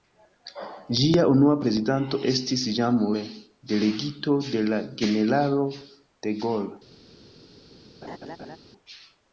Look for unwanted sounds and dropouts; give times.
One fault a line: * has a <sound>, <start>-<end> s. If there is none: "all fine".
* has a laugh, 8.0-8.6 s